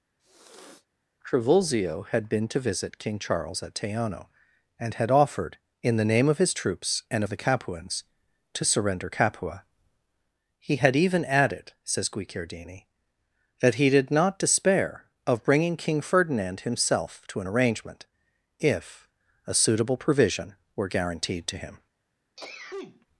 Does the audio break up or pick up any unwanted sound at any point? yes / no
yes